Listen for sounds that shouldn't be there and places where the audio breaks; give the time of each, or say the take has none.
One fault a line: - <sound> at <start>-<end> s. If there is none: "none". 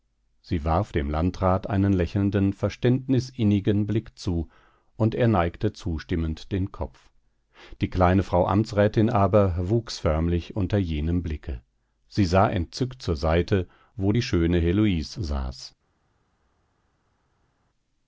none